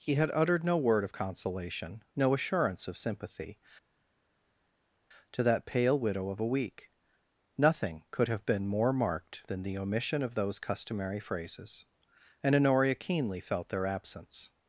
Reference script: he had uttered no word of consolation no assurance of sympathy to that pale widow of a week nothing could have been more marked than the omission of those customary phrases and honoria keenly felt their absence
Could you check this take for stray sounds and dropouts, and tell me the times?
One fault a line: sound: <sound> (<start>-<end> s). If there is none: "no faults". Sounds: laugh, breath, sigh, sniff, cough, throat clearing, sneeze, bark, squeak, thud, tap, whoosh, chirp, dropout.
no faults